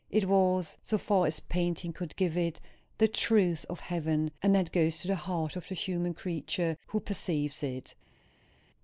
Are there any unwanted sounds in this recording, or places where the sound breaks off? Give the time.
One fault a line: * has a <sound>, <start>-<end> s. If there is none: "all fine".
all fine